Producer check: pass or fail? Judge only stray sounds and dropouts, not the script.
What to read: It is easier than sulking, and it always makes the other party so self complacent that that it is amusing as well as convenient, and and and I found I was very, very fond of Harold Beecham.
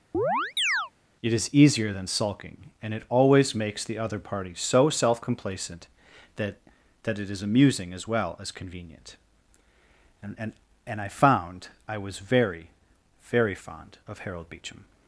fail